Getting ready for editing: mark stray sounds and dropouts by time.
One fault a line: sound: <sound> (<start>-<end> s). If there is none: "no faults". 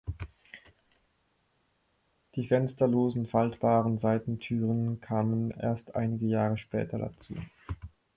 no faults